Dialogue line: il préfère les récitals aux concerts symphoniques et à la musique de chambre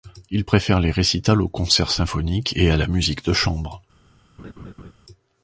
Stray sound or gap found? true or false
true